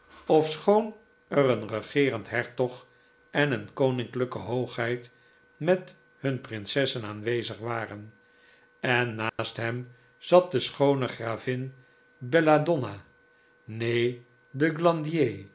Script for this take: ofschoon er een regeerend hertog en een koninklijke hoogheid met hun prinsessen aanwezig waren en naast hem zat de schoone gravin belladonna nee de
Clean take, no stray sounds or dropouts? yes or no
no